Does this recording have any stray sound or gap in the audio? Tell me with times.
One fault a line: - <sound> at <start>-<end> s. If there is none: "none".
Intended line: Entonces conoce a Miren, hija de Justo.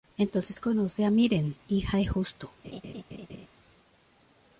- laugh at 2.6-3.5 s